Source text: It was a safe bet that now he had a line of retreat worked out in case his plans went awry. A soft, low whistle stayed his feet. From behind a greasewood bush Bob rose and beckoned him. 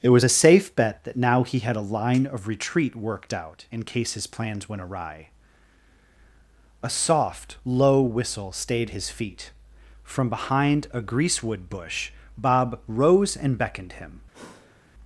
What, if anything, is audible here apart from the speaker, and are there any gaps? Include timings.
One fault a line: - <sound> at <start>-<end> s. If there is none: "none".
- sigh at 14.3-14.9 s